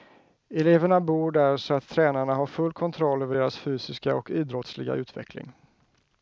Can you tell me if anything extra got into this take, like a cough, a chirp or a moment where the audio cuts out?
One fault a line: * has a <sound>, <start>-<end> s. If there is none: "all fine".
all fine